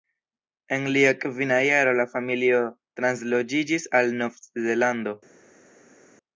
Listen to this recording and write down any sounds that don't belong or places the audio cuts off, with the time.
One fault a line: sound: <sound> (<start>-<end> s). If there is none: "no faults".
no faults